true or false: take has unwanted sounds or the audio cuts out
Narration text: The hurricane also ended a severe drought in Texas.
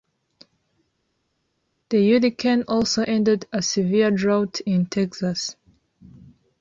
false